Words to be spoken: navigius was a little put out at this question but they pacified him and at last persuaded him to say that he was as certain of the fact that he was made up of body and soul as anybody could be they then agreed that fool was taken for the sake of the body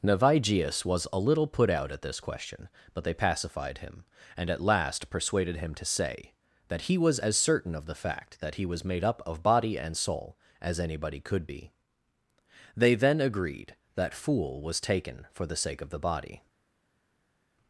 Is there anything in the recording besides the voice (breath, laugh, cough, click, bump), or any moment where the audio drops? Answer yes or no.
no